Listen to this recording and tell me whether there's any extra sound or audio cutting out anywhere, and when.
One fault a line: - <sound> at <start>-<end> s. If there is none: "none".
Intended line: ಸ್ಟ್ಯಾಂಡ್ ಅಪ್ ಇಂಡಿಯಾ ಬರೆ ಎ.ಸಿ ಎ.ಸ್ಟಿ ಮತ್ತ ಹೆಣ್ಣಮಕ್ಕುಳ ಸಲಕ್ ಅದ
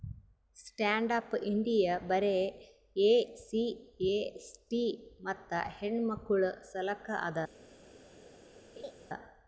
- laugh at 8.8-8.9 s